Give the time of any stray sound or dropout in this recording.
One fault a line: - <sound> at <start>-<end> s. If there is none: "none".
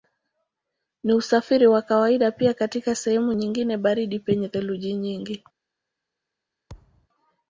- thud at 6.7-7.1 s